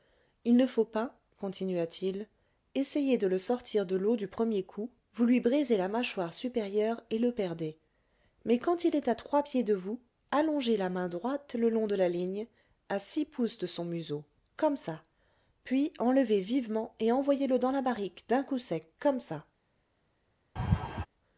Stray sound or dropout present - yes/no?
yes